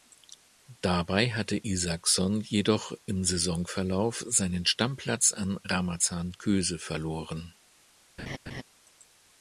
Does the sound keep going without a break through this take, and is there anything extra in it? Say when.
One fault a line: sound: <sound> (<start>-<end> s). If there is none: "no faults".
sound: laugh (8.2-8.6 s)